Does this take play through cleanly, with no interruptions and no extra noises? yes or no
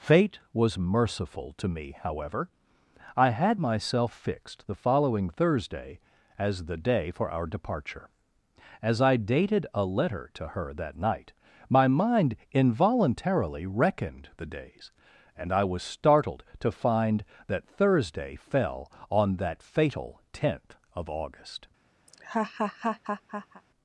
no